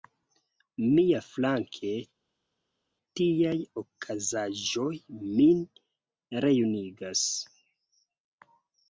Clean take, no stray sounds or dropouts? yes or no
yes